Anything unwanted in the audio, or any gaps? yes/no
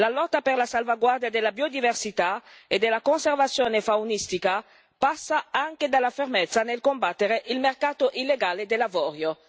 no